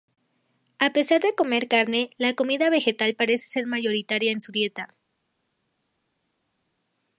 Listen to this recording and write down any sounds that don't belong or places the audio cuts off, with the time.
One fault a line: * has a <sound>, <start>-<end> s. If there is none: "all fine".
all fine